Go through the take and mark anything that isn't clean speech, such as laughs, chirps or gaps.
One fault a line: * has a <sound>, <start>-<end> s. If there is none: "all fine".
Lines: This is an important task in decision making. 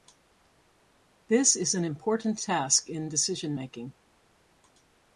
all fine